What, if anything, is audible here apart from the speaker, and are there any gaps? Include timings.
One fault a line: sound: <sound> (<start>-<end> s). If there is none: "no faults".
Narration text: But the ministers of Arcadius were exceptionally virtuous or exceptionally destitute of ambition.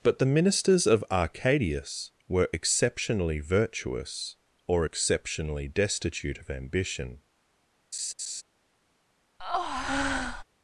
sound: laugh (7.9-8.4 s)
sound: breath (9.4-10.4 s)